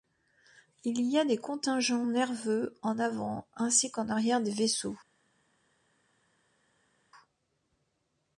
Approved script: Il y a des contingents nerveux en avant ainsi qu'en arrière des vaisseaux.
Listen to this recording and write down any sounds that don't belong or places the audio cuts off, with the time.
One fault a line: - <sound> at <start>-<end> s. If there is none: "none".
none